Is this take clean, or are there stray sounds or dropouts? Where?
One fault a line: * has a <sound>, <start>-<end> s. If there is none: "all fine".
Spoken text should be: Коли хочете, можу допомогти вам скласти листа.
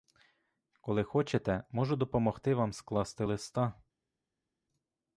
all fine